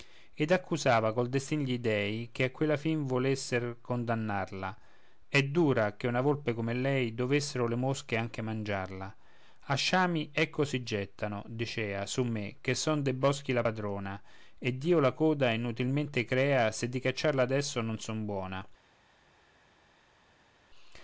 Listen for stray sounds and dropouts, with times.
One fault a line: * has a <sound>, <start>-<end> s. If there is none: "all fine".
all fine